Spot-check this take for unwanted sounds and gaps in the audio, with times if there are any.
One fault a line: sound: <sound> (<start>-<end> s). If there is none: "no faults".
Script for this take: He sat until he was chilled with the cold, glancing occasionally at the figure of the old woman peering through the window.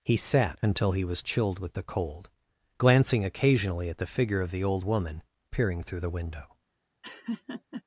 sound: laugh (7.0-7.8 s)